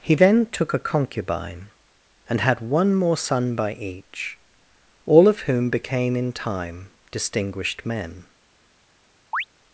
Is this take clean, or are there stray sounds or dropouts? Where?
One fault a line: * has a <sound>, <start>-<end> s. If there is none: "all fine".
* has a chirp, 9.3-9.4 s